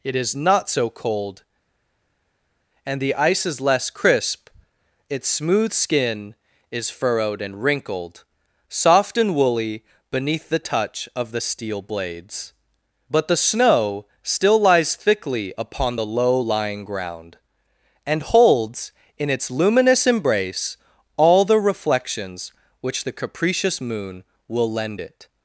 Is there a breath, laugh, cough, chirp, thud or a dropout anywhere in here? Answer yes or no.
no